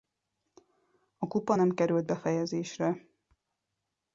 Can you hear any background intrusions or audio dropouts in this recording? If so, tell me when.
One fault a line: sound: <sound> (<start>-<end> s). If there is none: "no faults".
no faults